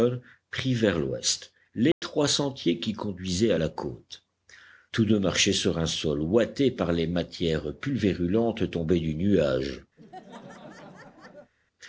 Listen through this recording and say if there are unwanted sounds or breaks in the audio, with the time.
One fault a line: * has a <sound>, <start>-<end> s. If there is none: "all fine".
* has a dropout, 1.9-2.0 s
* has a laugh, 10.0-11.5 s